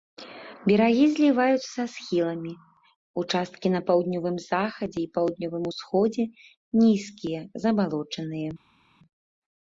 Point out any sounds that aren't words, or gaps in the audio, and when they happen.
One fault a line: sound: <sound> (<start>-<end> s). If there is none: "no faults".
no faults